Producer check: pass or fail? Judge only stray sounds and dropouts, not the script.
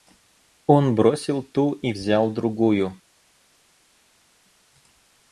pass